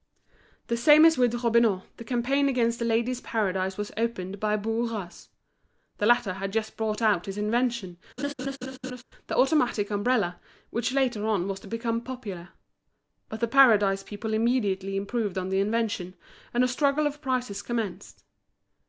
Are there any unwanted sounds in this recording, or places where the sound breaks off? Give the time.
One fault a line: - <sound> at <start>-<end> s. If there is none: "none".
- laugh at 8.2-9.0 s